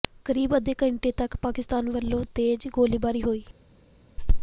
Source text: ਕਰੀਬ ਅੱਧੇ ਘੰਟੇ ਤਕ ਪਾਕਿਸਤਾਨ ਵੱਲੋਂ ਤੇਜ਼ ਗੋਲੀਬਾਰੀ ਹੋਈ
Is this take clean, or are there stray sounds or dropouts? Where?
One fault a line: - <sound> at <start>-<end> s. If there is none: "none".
none